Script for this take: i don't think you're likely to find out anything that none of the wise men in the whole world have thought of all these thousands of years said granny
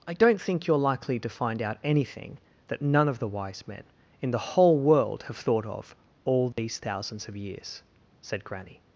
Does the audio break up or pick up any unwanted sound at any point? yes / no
yes